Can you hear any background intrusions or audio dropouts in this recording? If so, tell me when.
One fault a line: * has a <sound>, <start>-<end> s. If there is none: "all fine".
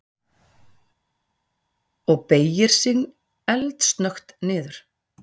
all fine